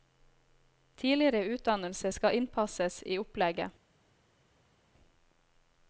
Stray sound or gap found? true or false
false